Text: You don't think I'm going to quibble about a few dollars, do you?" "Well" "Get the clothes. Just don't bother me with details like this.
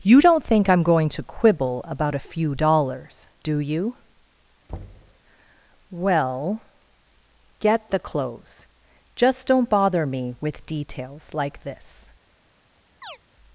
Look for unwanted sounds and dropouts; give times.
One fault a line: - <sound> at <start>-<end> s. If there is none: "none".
- thud at 4.7-5.2 s
- chirp at 13.0-13.2 s